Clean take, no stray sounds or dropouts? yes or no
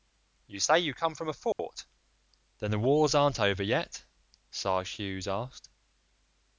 no